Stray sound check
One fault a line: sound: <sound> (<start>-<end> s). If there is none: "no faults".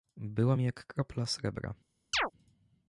sound: chirp (2.1-2.3 s)